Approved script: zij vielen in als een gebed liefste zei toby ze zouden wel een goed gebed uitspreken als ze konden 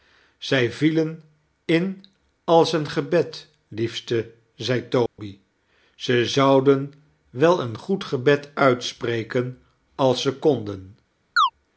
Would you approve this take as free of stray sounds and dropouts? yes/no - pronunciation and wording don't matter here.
no